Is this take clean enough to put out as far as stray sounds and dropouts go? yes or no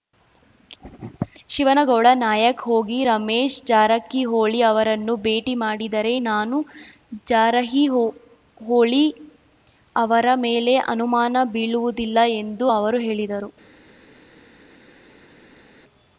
yes